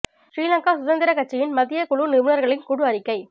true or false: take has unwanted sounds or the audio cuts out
false